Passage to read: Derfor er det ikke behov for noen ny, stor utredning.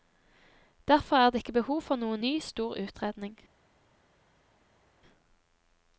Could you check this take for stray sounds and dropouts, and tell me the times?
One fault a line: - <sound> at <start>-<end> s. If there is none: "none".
none